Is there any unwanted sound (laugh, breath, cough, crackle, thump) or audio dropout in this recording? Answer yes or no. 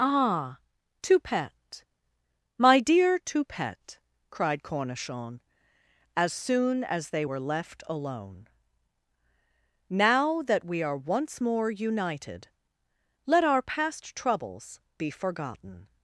no